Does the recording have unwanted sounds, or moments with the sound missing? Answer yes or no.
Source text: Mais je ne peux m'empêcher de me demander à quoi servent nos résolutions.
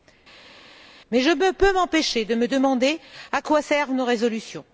no